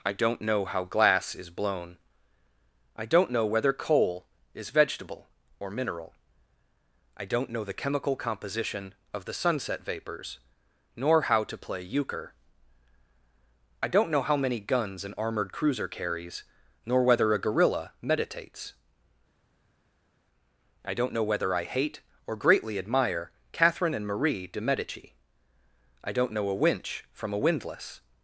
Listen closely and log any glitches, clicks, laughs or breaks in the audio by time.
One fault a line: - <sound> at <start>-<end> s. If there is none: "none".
none